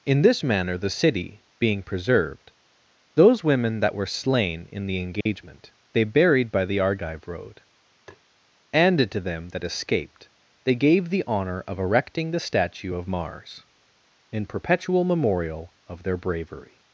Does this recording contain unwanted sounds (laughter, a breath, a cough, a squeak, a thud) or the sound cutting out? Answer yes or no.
yes